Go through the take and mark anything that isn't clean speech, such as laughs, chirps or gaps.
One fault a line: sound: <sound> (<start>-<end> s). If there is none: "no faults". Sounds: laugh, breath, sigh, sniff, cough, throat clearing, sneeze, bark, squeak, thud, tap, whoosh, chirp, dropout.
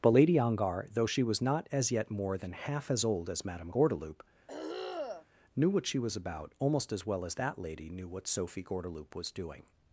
sound: throat clearing (4.5-5.3 s)